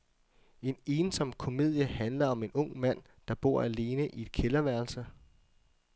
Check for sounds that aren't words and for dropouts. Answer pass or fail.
pass